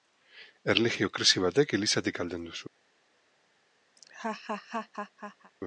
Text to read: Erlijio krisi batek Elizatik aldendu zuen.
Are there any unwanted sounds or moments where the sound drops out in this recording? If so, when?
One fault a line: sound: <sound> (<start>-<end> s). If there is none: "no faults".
sound: laugh (4.0-5.5 s)